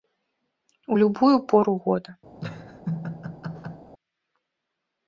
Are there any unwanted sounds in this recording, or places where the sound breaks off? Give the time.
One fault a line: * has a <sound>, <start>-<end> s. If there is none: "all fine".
* has a laugh, 2.4-3.9 s